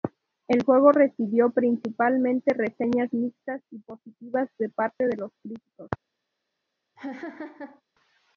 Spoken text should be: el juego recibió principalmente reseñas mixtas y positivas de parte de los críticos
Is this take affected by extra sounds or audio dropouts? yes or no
yes